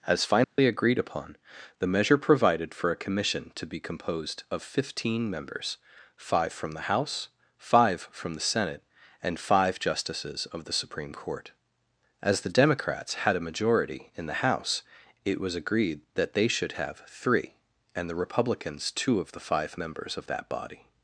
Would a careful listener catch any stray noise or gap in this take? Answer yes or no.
yes